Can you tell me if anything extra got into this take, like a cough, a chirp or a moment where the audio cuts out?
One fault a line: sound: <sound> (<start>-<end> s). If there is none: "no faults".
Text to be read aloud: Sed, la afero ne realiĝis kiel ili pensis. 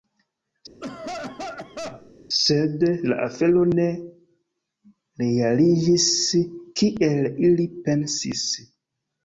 sound: cough (0.8-2.1 s)